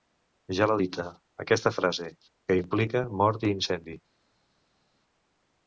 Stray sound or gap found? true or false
false